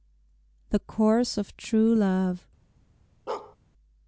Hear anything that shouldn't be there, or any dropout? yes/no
yes